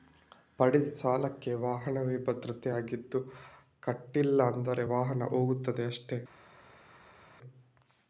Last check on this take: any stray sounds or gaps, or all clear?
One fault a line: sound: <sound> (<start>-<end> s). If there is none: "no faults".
no faults